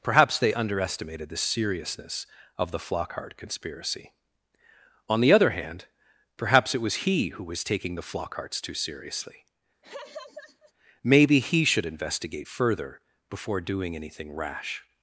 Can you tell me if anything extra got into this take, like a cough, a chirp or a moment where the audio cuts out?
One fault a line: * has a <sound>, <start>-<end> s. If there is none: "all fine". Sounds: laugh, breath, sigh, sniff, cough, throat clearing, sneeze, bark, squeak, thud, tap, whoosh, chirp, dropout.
* has a laugh, 9.8-10.7 s